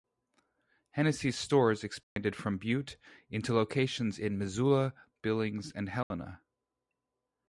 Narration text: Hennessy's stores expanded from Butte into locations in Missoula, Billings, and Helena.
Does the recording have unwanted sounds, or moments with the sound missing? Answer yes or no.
yes